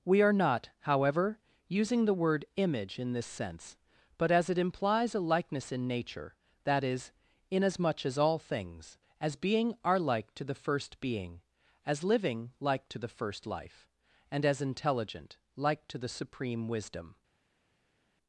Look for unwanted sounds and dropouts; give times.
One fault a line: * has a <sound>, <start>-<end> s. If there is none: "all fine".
all fine